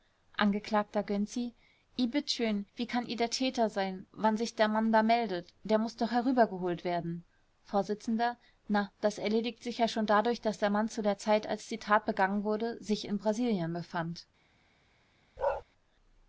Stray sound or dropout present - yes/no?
yes